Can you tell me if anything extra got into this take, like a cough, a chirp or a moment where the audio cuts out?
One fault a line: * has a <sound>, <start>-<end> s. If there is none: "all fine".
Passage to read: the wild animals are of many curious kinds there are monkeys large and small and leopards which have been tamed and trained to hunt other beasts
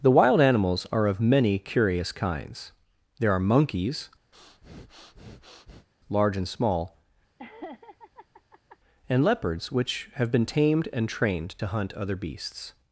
* has a breath, 4.3-5.9 s
* has a laugh, 7.4-8.8 s